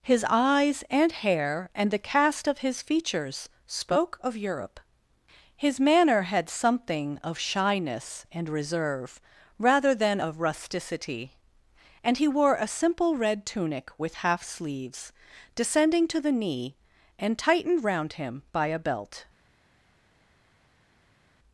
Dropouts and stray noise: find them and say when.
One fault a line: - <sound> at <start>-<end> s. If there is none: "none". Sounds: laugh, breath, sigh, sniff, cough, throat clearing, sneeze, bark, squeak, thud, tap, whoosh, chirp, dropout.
none